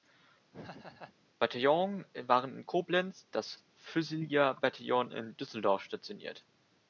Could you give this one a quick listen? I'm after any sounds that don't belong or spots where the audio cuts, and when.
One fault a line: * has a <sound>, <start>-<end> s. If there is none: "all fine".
* has a laugh, 0.5-1.2 s